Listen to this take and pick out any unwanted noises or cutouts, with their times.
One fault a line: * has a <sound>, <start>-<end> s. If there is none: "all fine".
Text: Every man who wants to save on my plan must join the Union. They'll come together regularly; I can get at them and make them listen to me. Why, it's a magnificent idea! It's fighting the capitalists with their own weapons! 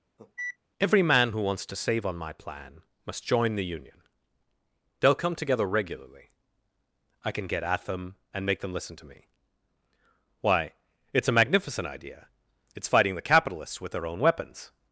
* has a cough, 0.2-0.6 s